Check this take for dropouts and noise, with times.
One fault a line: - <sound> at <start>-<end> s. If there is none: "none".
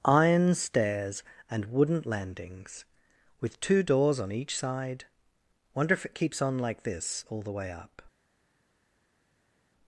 none